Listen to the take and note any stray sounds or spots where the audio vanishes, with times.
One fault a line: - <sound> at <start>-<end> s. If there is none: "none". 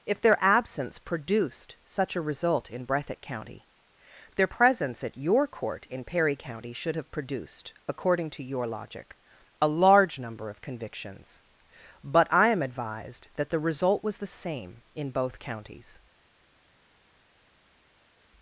none